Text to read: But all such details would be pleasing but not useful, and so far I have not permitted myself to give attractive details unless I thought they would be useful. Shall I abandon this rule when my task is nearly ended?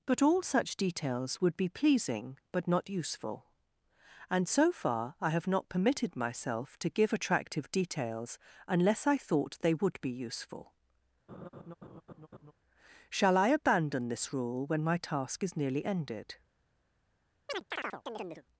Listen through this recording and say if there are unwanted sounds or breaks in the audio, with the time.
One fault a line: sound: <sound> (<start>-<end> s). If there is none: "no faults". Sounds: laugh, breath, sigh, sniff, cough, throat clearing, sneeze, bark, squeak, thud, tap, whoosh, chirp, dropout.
sound: laugh (11.3-12.5 s)
sound: chirp (17.5-18.4 s)